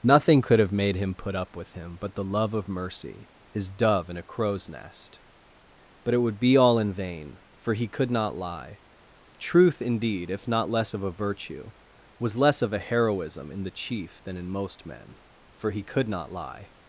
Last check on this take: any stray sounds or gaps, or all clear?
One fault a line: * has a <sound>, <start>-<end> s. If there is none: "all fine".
all fine